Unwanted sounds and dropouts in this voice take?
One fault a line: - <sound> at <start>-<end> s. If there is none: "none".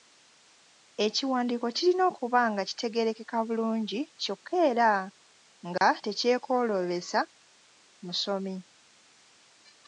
- dropout at 5.8-5.8 s